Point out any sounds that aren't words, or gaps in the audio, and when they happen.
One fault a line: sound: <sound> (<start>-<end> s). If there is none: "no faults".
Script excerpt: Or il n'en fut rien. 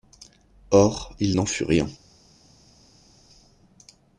no faults